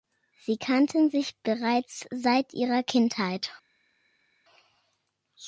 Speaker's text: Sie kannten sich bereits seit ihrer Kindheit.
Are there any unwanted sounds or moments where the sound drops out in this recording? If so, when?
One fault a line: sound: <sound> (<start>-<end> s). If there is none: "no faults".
no faults